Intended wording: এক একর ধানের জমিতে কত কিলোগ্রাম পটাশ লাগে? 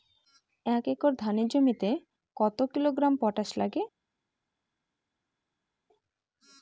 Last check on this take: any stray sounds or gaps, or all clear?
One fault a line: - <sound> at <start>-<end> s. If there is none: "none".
none